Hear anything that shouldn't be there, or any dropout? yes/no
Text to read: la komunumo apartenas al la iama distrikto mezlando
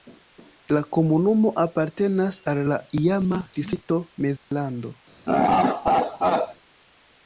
yes